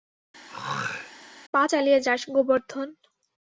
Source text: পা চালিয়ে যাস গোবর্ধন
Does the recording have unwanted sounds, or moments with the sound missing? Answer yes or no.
yes